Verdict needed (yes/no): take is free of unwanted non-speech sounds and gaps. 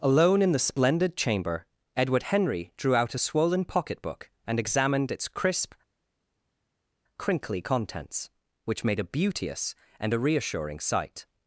yes